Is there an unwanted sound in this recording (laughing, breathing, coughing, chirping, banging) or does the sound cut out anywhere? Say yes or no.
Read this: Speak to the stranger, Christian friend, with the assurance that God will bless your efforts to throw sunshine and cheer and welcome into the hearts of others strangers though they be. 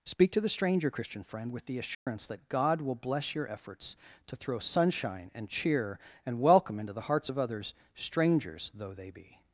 yes